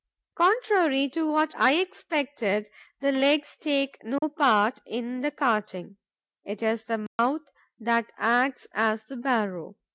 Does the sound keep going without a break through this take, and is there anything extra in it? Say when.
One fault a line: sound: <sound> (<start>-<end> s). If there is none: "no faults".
sound: dropout (4.2-4.2 s)
sound: dropout (7.1-7.2 s)